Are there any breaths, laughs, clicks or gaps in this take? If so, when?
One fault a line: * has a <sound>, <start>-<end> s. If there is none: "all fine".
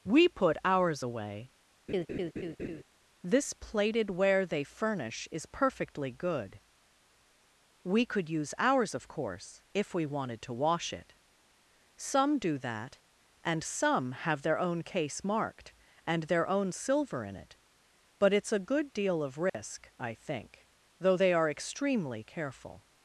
* has a laugh, 1.9-2.8 s
* has a dropout, 19.5-19.5 s